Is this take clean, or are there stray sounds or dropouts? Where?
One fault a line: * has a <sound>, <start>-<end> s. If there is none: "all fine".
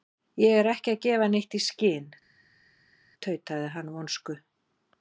all fine